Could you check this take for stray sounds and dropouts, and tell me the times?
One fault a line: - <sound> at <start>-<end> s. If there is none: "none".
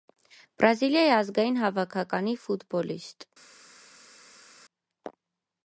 none